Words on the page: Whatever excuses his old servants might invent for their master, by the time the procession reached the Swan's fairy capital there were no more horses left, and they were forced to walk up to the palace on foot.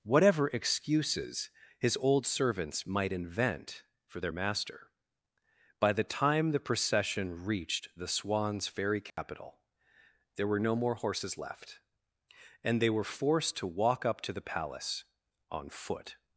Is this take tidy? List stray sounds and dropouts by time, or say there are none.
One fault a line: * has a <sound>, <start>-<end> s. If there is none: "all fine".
* has a dropout, 9.1-9.2 s